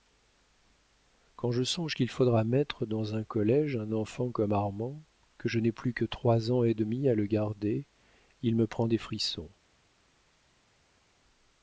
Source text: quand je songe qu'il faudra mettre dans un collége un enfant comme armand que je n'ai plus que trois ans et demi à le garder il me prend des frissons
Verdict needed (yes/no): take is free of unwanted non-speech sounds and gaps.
yes